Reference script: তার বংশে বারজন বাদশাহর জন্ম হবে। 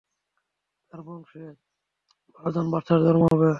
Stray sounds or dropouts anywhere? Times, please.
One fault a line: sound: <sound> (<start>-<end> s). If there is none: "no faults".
sound: dropout (3.3-3.3 s)